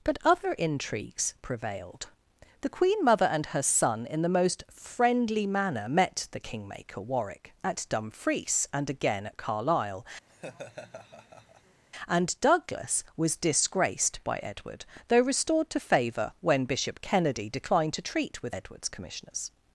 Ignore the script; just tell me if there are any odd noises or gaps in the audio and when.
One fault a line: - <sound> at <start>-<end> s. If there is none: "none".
- laugh at 10.3-11.8 s